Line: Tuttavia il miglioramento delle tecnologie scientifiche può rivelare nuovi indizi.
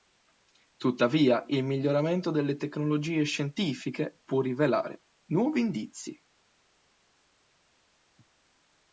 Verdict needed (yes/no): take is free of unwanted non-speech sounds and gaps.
yes